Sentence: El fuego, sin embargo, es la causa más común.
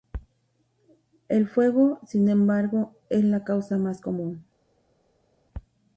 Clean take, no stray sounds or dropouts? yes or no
yes